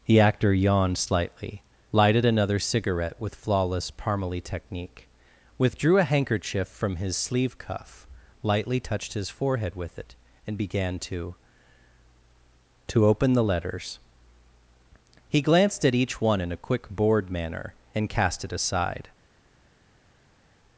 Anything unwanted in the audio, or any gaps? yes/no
no